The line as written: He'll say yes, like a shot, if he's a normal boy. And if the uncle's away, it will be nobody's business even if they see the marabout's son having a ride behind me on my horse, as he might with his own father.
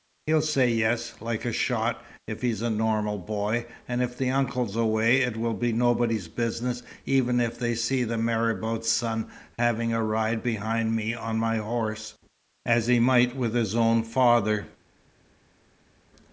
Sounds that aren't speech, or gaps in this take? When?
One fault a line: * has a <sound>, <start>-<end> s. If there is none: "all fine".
all fine